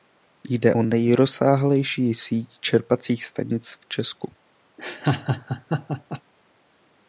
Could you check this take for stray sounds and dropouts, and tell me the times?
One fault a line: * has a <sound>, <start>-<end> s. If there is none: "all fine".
* has a laugh, 4.8-6.2 s